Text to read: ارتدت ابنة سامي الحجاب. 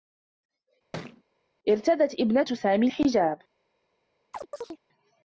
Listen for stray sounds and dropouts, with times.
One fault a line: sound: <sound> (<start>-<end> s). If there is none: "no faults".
sound: thud (0.9-1.2 s)
sound: chirp (4.3-4.8 s)